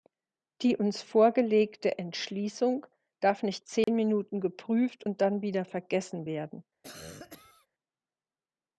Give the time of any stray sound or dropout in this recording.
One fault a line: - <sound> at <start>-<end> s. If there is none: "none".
- dropout at 3.8-3.9 s
- cough at 6.8-7.7 s